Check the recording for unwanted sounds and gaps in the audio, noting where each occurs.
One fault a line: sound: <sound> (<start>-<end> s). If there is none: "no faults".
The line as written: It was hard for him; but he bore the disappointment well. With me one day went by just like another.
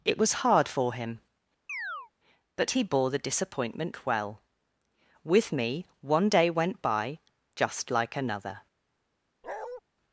sound: chirp (1.7-2.1 s)
sound: bark (9.4-9.8 s)